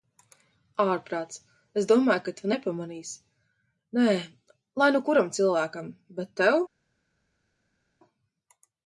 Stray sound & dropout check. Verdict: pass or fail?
pass